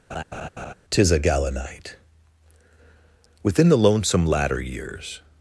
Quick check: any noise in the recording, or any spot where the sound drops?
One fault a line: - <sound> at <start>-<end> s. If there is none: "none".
- laugh at 0.1-0.7 s